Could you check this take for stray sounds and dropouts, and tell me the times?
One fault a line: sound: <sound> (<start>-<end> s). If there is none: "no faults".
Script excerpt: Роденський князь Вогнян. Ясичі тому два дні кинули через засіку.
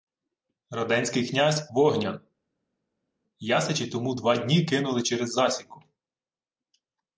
no faults